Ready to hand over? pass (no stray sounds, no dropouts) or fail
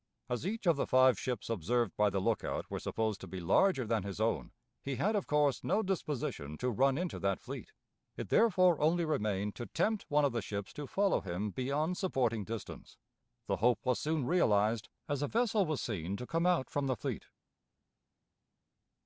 pass